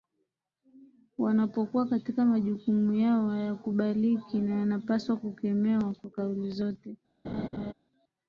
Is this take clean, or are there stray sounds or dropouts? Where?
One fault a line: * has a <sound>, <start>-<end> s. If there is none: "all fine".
* has a laugh, 7.2-7.7 s